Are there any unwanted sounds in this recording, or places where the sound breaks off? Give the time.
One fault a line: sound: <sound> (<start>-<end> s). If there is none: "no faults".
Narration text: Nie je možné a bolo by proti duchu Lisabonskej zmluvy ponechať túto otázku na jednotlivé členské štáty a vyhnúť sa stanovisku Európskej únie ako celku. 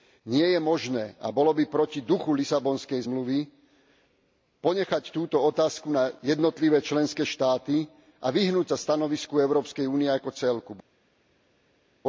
no faults